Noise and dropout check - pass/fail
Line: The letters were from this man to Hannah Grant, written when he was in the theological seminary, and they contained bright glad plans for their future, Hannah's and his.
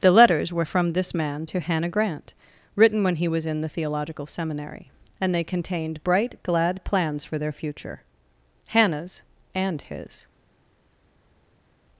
pass